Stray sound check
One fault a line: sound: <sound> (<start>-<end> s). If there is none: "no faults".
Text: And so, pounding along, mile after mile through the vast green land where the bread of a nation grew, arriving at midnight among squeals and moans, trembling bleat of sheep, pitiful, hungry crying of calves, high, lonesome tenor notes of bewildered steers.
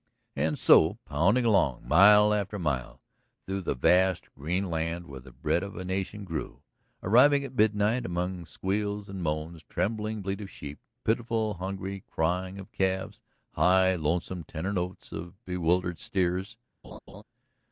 sound: laugh (16.8-17.2 s)